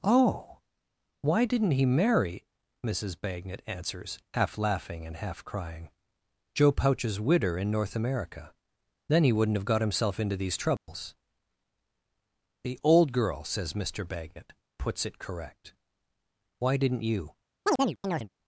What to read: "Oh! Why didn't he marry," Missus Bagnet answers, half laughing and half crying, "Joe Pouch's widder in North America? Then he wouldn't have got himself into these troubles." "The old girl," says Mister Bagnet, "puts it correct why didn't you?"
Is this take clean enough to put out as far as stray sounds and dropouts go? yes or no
no